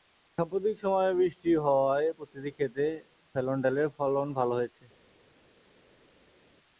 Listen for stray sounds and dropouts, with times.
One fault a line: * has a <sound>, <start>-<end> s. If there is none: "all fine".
all fine